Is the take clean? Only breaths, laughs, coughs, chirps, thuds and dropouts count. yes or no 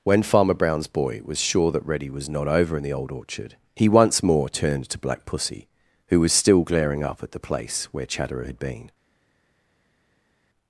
yes